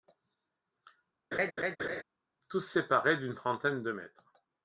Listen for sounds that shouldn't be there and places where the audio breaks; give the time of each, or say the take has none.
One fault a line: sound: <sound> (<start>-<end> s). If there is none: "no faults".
sound: laugh (1.3-2.0 s)